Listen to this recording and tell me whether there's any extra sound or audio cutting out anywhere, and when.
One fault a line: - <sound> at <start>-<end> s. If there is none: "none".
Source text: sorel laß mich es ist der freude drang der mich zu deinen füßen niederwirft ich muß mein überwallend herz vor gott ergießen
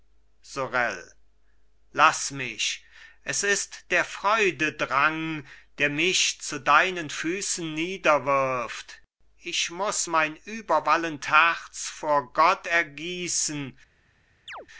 - chirp at 14.5-14.7 s